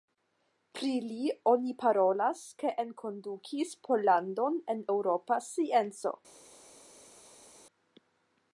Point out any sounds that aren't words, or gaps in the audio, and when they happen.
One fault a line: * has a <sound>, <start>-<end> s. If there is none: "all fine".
all fine